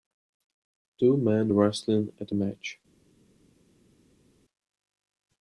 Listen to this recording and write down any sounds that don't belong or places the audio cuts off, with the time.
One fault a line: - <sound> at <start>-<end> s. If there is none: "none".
none